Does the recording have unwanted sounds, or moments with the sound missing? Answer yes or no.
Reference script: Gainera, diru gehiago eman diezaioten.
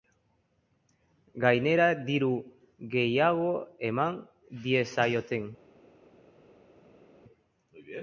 no